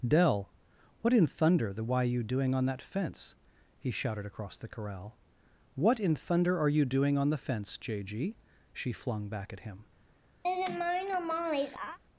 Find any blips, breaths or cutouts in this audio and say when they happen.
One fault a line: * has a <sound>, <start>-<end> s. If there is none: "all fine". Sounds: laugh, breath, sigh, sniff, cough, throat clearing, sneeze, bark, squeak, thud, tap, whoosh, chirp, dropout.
* has a laugh, 10.4-12.0 s